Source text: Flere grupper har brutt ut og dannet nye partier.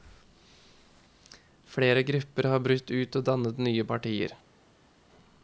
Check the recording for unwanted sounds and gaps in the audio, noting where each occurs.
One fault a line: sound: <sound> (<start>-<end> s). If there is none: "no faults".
no faults